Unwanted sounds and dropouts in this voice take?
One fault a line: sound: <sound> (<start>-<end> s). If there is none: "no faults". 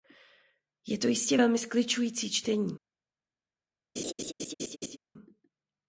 sound: laugh (4.0-5.0 s)